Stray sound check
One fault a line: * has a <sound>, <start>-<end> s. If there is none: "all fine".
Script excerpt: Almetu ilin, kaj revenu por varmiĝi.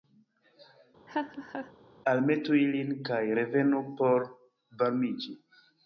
* has a laugh, 1.1-1.7 s